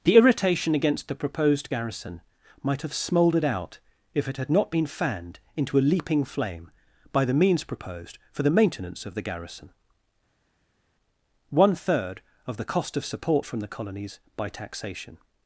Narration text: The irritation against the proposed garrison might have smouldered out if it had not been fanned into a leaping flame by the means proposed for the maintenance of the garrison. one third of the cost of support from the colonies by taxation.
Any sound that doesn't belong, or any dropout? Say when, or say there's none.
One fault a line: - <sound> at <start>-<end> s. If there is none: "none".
none